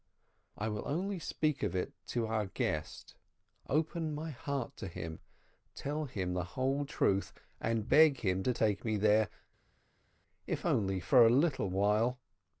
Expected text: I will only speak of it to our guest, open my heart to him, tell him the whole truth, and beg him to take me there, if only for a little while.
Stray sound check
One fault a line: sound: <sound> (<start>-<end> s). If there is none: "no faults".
no faults